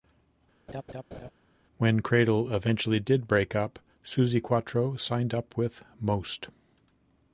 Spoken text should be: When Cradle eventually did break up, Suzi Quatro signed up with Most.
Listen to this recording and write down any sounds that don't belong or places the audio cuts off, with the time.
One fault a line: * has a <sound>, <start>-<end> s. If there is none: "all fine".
* has a laugh, 0.7-1.3 s